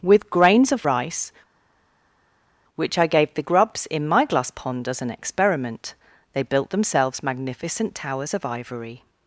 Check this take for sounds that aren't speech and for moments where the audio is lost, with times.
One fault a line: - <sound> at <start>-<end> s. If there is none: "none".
none